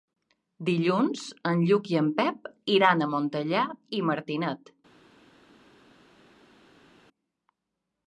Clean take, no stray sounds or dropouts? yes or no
yes